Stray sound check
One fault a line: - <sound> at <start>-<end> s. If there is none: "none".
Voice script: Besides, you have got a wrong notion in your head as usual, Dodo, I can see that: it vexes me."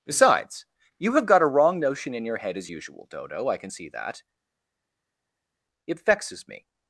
none